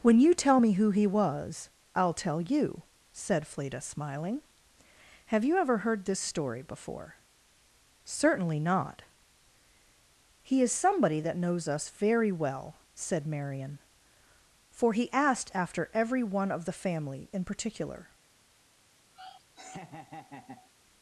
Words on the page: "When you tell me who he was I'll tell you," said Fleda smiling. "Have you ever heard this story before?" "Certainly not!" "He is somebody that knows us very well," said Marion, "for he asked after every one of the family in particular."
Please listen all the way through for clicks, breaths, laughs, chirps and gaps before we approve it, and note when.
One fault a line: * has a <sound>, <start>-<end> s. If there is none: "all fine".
* has a laugh, 19.1-20.7 s